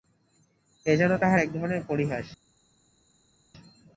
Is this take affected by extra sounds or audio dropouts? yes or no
no